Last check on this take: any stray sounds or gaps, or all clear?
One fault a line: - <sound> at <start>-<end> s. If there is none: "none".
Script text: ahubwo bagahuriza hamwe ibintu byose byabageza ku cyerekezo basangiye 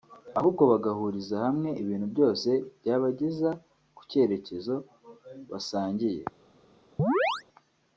- chirp at 7.0-7.4 s